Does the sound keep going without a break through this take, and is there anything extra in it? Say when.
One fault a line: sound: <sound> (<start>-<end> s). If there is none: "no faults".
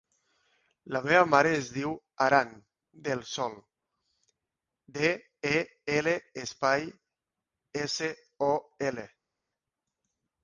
no faults